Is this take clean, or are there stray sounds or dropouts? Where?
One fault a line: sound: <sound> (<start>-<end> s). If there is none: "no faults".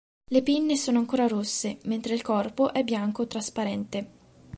no faults